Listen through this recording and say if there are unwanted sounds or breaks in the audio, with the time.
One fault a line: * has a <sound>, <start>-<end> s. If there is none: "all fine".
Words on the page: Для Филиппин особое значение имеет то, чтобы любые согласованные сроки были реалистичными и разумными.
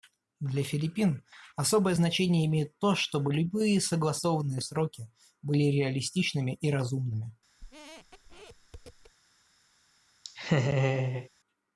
* has a squeak, 7.6-9.1 s
* has a laugh, 10.2-11.3 s